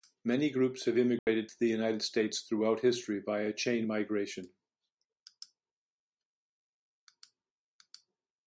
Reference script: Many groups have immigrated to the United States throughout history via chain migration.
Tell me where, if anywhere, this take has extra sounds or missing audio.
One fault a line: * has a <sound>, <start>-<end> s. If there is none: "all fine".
* has a dropout, 1.2-1.3 s